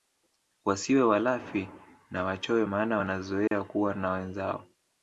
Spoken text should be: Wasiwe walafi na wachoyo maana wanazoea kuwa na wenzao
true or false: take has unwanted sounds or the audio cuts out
true